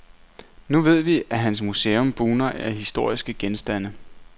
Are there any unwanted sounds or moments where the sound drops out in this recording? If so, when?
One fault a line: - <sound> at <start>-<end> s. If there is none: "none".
none